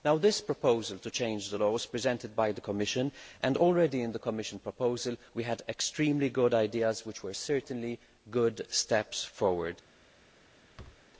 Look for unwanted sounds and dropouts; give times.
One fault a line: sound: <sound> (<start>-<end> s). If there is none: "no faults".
sound: thud (10.8-11.0 s)